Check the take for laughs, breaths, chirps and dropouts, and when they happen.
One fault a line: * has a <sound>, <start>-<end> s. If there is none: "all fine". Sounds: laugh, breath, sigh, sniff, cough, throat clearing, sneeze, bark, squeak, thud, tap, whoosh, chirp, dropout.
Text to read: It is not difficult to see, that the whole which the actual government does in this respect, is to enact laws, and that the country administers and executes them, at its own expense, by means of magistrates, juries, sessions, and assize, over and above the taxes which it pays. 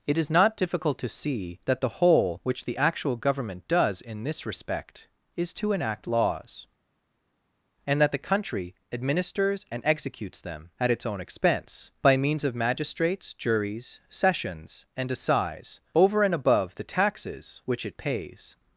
all fine